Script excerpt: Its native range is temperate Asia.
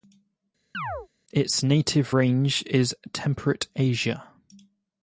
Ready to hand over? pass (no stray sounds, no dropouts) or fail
fail